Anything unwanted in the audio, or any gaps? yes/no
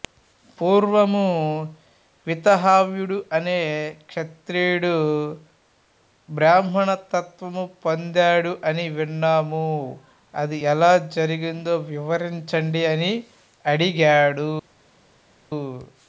no